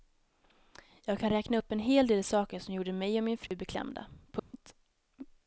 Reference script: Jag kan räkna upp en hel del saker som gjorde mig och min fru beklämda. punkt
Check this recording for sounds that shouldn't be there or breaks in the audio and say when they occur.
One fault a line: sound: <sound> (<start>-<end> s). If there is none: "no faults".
sound: dropout (3.5-3.5 s)
sound: dropout (4.4-4.5 s)